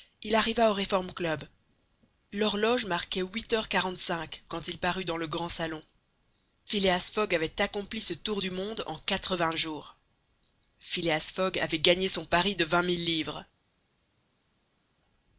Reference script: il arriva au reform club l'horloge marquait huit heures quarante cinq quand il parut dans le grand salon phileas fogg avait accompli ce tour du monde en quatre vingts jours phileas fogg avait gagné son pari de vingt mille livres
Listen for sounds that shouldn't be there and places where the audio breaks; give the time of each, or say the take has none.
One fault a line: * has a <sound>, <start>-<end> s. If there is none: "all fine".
all fine